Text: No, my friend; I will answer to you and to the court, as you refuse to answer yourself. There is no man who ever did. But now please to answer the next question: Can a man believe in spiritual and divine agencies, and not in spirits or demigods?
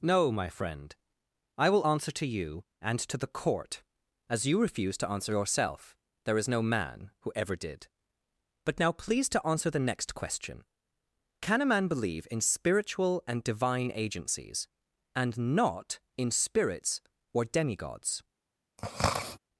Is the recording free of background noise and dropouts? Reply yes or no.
no